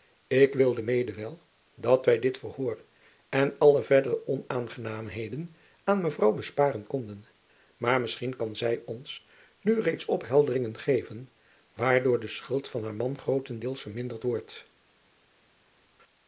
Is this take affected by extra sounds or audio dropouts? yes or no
no